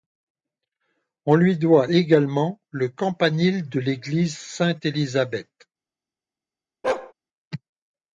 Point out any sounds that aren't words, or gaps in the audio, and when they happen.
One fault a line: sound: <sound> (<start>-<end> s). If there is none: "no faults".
sound: bark (6.8-7.1 s)